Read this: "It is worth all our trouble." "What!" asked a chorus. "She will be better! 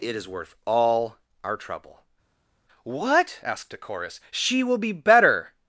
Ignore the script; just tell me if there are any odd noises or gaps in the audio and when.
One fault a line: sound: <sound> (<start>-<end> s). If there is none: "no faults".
no faults